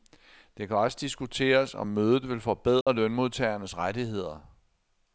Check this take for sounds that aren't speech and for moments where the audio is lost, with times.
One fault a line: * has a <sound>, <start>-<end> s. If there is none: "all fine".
* has a dropout, 2.8-2.9 s